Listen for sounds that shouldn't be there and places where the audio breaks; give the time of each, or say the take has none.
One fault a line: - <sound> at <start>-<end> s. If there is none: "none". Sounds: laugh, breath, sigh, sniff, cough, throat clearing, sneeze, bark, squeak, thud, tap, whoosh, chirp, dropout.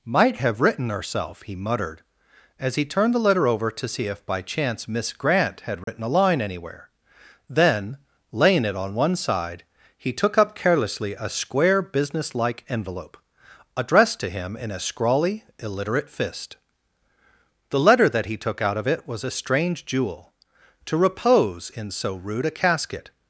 - dropout at 5.8-5.9 s